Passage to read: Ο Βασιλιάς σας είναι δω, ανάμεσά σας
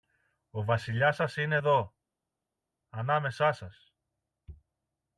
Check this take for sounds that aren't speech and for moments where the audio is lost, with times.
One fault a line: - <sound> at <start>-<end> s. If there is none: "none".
none